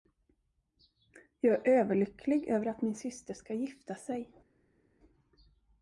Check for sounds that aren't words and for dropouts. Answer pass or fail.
pass